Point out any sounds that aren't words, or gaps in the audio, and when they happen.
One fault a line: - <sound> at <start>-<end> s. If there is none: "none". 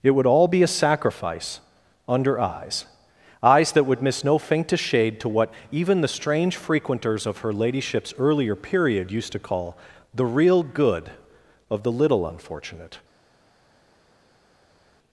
none